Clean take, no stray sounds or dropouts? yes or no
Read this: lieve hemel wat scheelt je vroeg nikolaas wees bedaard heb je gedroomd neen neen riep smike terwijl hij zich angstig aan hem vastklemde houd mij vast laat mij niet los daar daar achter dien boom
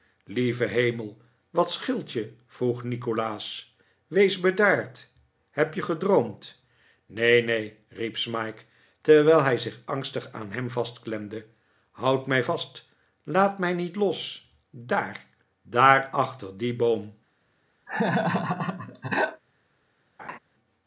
no